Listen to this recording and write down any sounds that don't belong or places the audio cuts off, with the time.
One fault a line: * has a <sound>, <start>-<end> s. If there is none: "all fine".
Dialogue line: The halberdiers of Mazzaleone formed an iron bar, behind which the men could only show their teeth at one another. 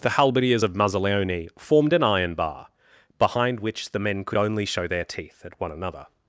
all fine